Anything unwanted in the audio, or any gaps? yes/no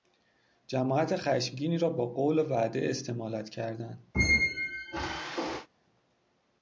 yes